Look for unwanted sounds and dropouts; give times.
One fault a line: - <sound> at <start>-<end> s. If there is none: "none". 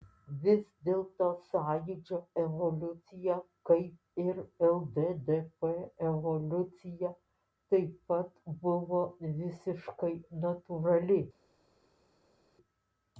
none